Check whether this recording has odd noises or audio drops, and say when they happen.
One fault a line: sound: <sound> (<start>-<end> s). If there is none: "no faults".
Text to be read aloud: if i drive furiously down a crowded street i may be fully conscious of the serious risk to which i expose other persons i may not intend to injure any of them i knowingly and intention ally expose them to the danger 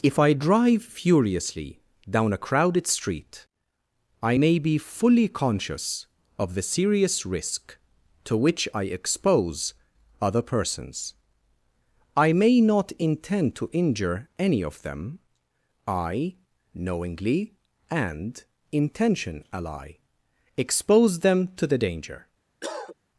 sound: cough (22.6-23.0 s)